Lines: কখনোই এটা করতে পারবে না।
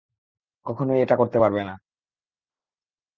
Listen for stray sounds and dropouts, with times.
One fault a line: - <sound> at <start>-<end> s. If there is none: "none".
none